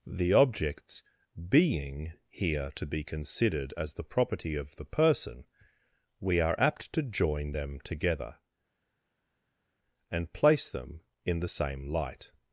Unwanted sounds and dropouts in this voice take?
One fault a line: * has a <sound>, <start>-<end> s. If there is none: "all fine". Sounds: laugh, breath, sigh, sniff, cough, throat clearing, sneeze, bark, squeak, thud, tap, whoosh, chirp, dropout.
all fine